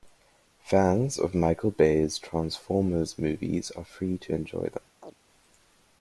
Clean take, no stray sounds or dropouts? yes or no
no